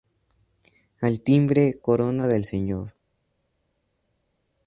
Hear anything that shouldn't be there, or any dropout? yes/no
no